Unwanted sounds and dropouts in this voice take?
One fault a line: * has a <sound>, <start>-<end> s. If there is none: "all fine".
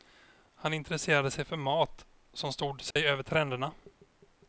* has a dropout, 2.9-3.0 s